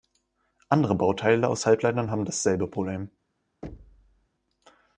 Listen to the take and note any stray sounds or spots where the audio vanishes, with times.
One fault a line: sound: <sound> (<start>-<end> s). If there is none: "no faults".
sound: thud (3.6-4.3 s)